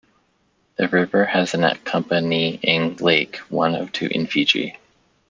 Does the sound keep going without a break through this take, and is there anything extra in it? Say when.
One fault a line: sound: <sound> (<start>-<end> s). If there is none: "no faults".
no faults